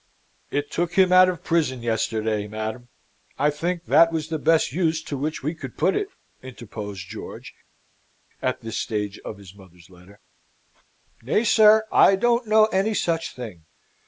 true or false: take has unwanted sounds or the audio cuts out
false